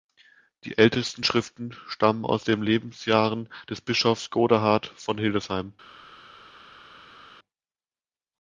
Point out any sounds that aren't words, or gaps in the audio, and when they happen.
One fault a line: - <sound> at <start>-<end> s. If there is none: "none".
none